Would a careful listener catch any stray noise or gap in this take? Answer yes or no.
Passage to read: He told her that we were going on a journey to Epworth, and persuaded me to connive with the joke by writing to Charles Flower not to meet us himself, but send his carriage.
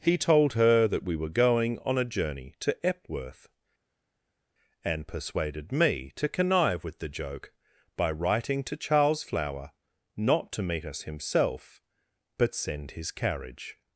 no